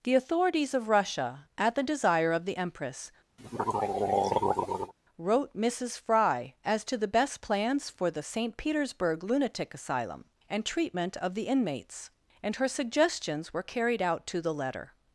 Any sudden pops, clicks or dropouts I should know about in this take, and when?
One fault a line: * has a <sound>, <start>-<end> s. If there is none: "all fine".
* has a throat clearing, 3.4-4.9 s